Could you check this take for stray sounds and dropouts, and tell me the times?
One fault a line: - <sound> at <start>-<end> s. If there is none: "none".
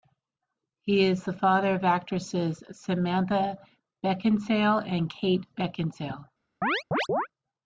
- chirp at 6.6-7.3 s